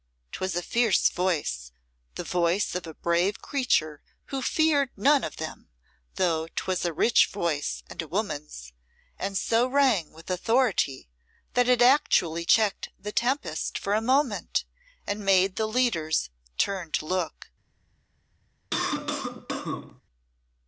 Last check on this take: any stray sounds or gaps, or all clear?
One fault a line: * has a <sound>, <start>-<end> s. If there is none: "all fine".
* has a cough, 18.7-20.0 s